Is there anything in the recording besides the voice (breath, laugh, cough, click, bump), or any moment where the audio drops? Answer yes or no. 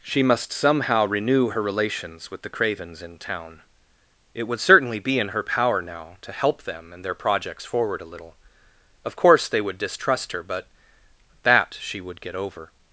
no